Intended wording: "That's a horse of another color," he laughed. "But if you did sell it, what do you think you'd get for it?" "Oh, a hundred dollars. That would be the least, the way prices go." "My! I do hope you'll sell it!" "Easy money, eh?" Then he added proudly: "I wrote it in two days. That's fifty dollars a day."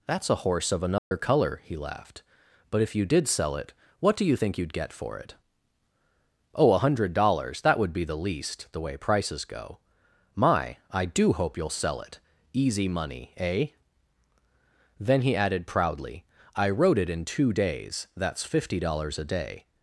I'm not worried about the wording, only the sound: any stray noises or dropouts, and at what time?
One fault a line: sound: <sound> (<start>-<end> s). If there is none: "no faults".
sound: dropout (1.0-1.1 s)